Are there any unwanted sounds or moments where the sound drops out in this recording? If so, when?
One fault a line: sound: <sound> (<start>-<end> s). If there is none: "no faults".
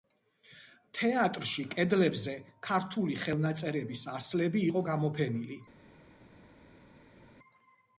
no faults